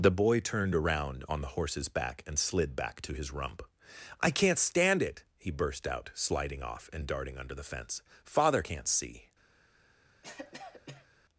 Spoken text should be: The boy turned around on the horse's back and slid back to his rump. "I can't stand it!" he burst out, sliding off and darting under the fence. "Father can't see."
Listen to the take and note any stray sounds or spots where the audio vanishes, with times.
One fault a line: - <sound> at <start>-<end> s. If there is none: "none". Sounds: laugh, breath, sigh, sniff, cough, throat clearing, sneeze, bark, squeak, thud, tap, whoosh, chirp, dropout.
- cough at 10.2-11.1 s